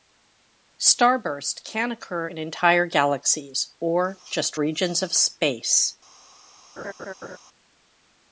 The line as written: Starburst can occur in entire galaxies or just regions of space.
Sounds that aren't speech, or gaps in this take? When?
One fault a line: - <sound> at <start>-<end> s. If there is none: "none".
- laugh at 6.8-7.4 s